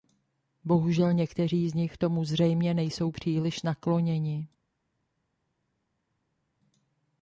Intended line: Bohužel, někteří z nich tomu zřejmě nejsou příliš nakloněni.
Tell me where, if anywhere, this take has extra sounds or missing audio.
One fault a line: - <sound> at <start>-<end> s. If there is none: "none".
none